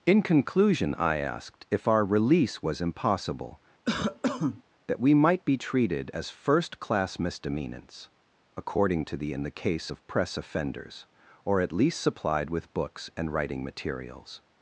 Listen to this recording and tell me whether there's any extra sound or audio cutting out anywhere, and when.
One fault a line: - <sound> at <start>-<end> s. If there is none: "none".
- cough at 3.8-4.6 s